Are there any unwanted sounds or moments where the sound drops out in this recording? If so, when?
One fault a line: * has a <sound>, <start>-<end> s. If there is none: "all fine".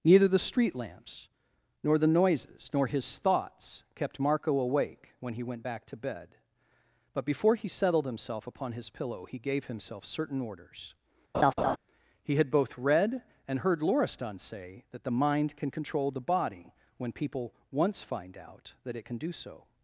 * has a laugh, 11.3-11.8 s